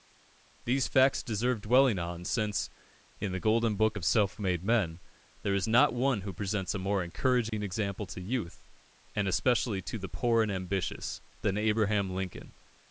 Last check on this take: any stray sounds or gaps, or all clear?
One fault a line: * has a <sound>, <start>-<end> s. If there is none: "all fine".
* has a dropout, 7.5-7.5 s